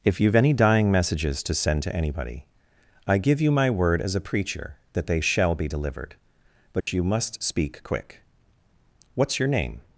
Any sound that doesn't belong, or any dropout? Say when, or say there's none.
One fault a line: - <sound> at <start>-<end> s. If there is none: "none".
- dropout at 6.8-6.9 s